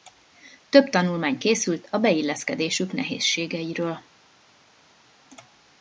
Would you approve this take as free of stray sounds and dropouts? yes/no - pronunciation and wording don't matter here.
yes